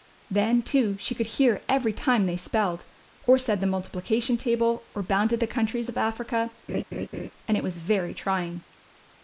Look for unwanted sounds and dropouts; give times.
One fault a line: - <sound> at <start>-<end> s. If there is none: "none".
- laugh at 6.7-7.3 s